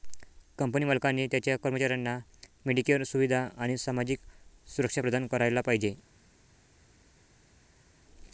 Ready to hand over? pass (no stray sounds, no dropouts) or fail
pass